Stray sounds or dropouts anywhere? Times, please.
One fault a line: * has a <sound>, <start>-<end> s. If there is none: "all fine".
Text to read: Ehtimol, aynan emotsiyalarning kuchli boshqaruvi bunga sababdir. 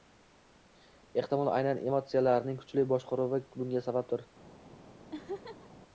* has a laugh, 5.1-5.7 s